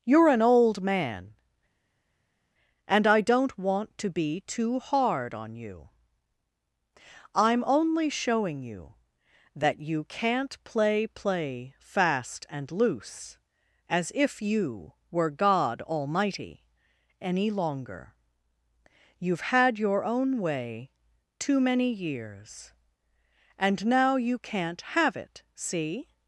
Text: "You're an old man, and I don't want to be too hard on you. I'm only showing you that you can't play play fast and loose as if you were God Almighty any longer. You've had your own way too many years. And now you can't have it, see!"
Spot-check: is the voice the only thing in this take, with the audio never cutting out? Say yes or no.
yes